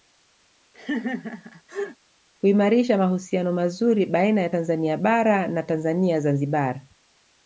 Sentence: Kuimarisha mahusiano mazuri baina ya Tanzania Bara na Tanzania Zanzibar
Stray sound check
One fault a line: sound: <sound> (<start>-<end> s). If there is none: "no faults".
sound: laugh (0.7-2.0 s)